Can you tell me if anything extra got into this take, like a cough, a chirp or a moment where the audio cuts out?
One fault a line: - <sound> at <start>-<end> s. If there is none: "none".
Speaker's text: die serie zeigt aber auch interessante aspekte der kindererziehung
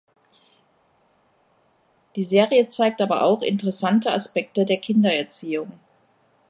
none